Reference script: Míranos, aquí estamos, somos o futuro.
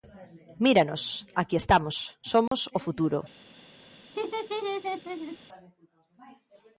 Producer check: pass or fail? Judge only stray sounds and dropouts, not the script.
fail